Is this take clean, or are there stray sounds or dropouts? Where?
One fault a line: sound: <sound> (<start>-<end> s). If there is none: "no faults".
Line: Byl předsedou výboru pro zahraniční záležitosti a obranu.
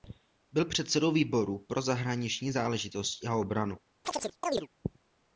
sound: chirp (4.0-4.7 s)